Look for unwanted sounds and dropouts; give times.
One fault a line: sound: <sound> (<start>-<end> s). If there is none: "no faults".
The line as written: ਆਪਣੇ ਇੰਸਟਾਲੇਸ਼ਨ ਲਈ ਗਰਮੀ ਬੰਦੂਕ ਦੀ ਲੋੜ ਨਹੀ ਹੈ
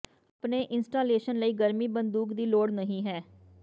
no faults